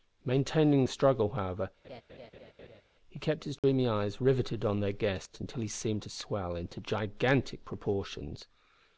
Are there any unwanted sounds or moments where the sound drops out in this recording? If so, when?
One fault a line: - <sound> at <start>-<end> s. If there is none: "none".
- laugh at 1.8-2.8 s
- dropout at 3.6-3.6 s